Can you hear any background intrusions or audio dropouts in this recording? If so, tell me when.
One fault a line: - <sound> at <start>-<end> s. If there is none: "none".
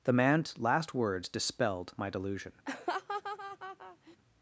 - laugh at 2.7-4.2 s